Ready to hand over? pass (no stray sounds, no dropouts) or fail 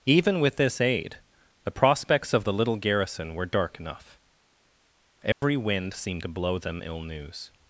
fail